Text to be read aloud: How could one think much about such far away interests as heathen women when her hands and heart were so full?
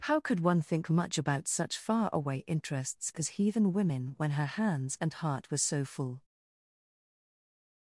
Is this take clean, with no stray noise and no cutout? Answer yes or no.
yes